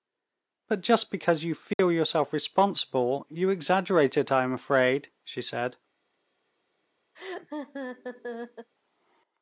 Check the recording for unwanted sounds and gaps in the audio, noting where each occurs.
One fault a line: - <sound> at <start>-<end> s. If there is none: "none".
- dropout at 1.7-1.8 s
- laugh at 7.1-8.7 s